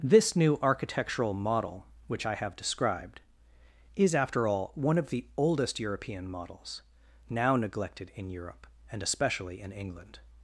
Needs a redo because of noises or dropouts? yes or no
no